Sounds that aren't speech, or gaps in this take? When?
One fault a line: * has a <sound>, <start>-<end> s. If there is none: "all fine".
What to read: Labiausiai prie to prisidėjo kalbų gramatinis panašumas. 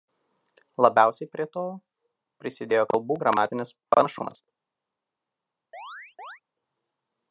* has a chirp, 5.7-6.4 s